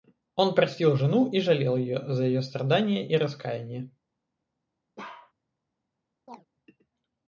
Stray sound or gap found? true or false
true